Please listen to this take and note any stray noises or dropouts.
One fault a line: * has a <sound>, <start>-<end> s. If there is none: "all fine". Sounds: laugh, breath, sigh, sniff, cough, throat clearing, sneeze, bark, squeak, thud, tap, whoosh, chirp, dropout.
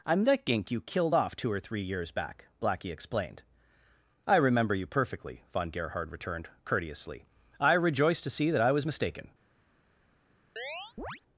* has a chirp, 10.6-11.2 s